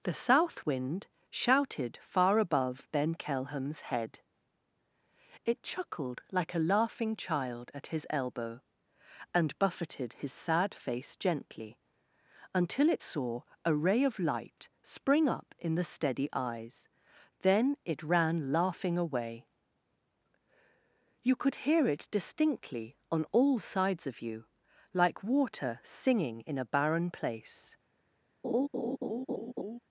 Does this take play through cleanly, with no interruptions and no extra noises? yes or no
no